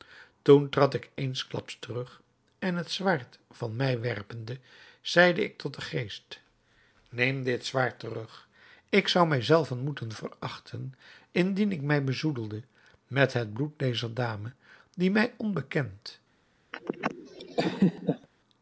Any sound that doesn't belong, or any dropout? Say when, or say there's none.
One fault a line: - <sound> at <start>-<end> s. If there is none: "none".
- laugh at 16.7-18.3 s